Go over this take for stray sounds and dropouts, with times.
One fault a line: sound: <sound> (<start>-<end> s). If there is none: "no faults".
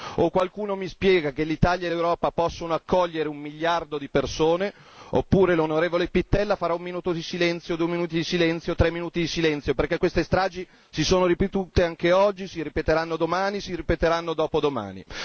no faults